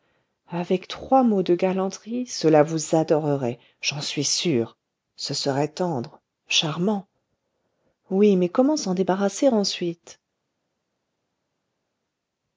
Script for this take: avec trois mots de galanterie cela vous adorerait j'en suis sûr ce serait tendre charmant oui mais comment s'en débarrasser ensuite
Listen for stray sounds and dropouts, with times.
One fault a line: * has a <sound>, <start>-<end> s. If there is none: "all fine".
all fine